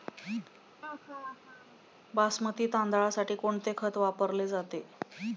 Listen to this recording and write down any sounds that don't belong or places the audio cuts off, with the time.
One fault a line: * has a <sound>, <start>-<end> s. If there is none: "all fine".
* has a laugh, 0.8-1.8 s